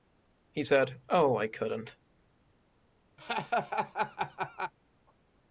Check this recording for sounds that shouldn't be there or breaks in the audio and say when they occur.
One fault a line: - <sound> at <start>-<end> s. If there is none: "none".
- laugh at 3.2-4.7 s